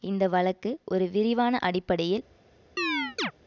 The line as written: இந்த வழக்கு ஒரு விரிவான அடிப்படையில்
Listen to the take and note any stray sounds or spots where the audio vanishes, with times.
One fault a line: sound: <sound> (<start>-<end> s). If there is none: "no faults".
sound: chirp (2.8-3.3 s)